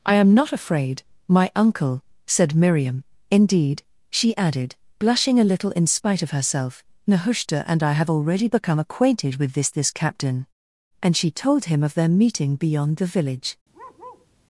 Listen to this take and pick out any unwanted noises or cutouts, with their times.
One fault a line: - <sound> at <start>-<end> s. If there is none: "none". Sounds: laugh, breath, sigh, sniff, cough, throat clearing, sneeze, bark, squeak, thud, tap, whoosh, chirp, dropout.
- bark at 13.7-14.3 s